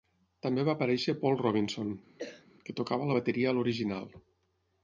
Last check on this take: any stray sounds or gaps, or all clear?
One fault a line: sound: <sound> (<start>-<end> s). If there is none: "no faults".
sound: cough (2.2-2.5 s)